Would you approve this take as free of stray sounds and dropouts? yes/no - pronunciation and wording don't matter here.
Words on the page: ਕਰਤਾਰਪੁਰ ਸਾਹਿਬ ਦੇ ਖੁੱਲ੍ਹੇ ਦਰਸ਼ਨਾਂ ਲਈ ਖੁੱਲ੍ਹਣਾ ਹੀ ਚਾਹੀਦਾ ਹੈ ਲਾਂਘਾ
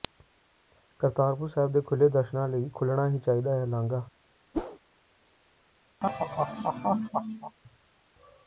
no